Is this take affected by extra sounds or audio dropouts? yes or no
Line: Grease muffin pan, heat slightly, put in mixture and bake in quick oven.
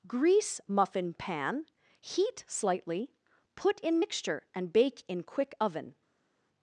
no